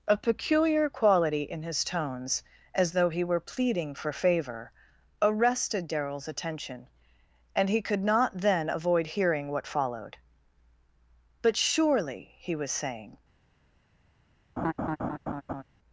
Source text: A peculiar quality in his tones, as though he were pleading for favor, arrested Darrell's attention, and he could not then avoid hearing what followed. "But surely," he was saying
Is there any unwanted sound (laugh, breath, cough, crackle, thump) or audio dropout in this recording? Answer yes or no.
yes